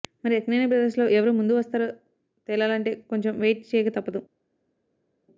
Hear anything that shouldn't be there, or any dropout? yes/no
no